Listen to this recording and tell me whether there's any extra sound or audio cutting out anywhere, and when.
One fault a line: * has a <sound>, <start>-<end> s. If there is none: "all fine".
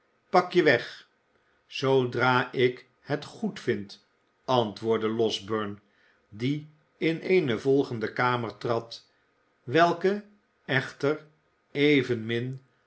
all fine